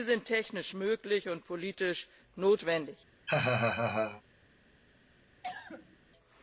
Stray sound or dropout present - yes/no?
yes